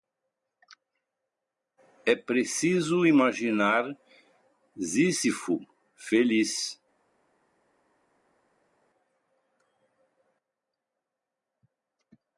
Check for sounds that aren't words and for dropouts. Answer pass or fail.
pass